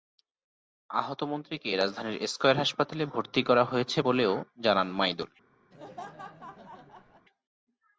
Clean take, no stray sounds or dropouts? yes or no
no